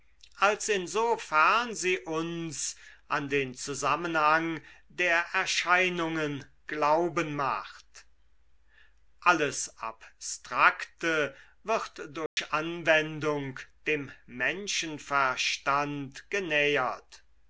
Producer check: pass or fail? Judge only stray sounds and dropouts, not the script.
fail